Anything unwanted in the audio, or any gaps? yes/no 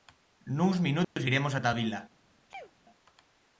yes